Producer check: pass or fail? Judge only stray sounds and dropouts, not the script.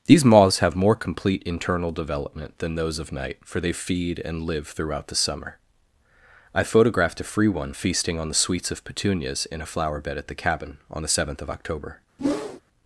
fail